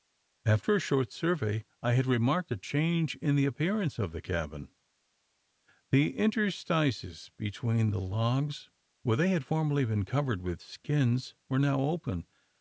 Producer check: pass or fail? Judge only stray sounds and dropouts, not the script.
pass